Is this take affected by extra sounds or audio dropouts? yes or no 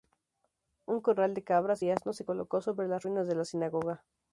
no